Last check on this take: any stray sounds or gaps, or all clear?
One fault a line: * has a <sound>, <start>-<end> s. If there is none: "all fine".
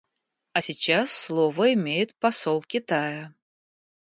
all fine